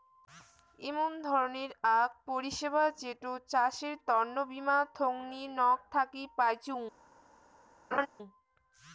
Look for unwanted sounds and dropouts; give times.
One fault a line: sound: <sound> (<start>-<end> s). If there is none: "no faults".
sound: laugh (7.9-8.1 s)